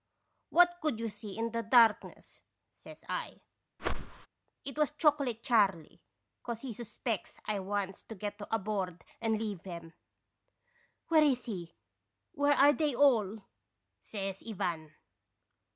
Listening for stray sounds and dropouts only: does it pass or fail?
fail